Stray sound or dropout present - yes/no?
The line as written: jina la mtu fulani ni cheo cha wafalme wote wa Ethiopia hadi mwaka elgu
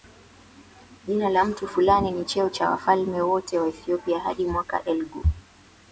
no